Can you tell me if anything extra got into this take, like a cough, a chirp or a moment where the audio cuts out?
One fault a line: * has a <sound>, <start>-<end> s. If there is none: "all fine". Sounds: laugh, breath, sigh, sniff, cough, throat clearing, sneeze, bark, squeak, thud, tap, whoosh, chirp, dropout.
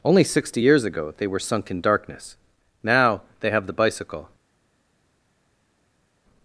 all fine